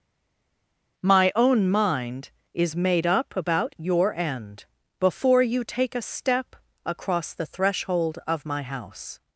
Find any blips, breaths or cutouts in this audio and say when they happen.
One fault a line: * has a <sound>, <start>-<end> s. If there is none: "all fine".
all fine